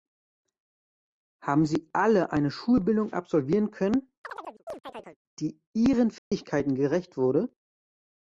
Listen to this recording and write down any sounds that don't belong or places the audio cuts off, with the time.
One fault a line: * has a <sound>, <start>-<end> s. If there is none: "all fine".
* has a chirp, 4.2-5.2 s
* has a dropout, 6.2-6.3 s